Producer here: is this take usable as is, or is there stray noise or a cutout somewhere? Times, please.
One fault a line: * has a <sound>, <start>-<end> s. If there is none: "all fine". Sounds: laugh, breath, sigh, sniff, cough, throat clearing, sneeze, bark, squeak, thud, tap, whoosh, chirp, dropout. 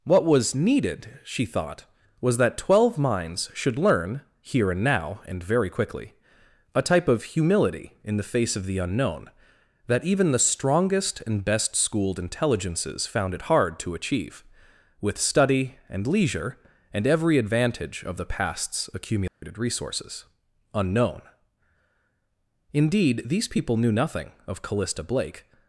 * has a dropout, 19.3-19.4 s